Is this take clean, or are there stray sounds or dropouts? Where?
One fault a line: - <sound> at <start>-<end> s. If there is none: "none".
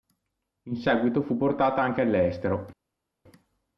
none